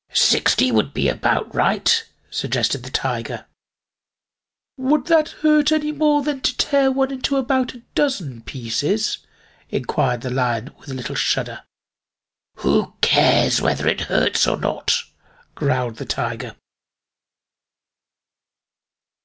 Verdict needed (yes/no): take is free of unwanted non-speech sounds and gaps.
yes